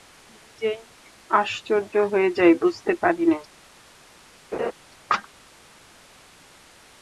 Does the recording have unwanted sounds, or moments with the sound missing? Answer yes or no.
yes